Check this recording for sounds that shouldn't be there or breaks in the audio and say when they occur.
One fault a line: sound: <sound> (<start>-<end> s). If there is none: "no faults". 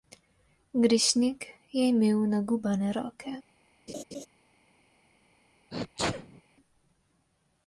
sound: laugh (3.9-4.3 s)
sound: sneeze (5.7-6.4 s)